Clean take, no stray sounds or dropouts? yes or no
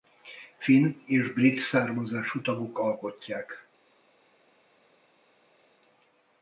yes